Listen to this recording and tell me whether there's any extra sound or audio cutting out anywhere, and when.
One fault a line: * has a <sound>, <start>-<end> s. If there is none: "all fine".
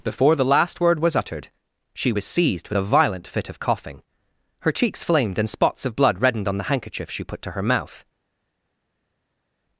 all fine